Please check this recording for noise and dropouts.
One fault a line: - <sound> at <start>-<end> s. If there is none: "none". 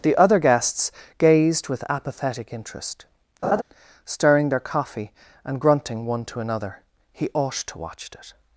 - laugh at 3.4-3.6 s